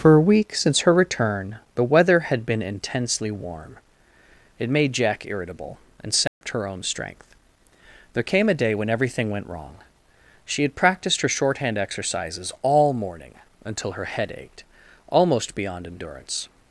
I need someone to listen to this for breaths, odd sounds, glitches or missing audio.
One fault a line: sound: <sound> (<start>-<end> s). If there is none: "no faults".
sound: dropout (6.3-6.4 s)